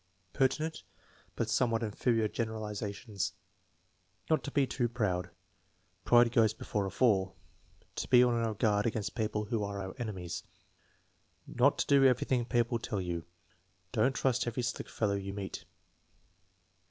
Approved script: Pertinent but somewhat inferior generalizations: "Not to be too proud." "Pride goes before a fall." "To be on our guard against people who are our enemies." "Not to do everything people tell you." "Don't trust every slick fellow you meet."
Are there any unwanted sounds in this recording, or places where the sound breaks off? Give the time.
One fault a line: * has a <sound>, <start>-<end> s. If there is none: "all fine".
all fine